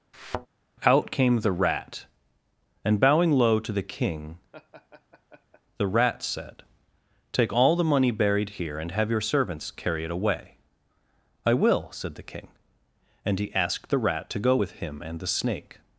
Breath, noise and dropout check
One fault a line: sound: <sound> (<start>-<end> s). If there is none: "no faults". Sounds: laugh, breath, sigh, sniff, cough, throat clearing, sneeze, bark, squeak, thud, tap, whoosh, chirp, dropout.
sound: thud (0.1-0.5 s)
sound: laugh (4.5-5.6 s)